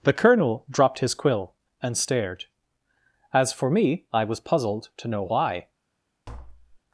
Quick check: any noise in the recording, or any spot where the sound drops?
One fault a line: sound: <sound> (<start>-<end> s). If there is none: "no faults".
sound: tap (6.3-6.8 s)